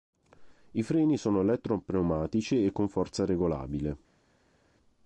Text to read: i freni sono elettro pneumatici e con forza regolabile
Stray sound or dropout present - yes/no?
no